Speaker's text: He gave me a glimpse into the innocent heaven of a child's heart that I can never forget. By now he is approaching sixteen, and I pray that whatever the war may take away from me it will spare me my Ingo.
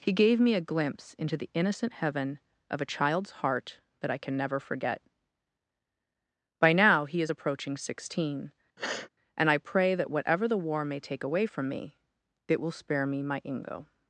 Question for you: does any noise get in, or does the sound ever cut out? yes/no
yes